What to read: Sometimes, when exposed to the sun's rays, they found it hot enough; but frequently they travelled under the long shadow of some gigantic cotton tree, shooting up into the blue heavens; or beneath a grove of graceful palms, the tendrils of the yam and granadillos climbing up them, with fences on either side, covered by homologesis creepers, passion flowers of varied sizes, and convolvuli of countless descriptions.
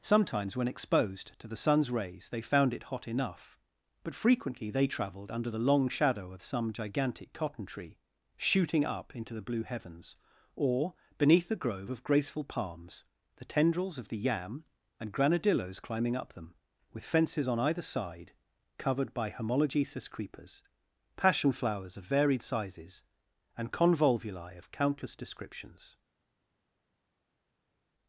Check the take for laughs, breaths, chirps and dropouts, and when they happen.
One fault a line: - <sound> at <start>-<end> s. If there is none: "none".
none